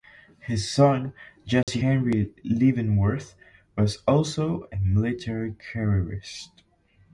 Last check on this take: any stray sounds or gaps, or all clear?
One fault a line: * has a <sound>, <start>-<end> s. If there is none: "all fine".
* has a dropout, 1.6-1.7 s